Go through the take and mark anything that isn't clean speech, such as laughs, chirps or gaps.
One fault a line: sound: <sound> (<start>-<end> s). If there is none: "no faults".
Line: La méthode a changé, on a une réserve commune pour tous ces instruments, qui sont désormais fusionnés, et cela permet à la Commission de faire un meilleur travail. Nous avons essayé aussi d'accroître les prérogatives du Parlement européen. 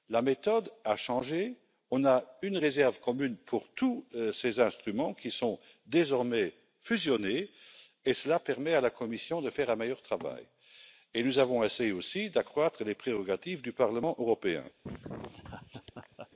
sound: laugh (14.8-16.3 s)